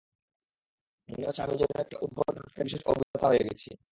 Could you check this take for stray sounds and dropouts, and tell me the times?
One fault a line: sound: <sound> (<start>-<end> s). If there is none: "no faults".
sound: dropout (3.0-3.1 s)